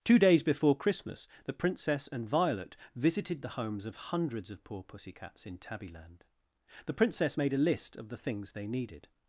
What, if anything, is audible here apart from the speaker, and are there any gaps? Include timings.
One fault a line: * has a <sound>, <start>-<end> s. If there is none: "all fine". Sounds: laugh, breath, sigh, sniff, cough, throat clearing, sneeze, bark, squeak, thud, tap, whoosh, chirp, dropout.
all fine